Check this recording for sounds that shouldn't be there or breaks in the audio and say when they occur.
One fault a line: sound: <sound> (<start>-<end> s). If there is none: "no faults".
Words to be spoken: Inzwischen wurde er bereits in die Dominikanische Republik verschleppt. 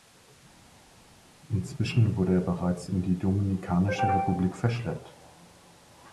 no faults